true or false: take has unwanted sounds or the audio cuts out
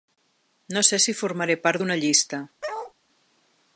true